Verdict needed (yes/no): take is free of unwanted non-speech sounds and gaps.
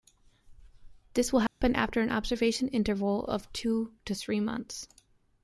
no